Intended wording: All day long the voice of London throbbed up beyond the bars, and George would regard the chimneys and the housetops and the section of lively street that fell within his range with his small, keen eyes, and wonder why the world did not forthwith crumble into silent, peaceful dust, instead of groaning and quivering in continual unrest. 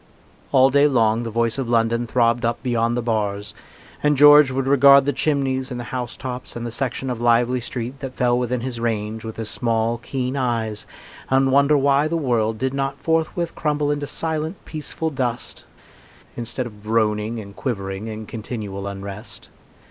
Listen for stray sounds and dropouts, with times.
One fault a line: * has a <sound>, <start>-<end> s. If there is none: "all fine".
all fine